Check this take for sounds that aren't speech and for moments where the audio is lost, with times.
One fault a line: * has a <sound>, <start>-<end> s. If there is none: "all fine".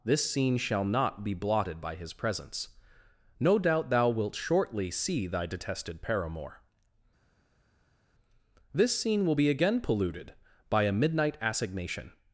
all fine